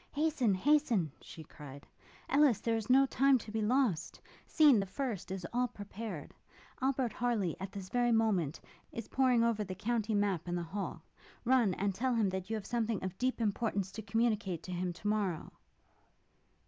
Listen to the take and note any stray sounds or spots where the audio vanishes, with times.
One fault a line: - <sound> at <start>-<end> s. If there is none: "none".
none